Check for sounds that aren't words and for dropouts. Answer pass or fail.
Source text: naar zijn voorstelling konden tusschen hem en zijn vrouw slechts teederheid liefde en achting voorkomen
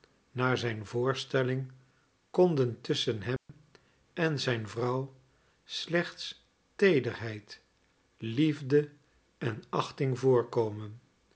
fail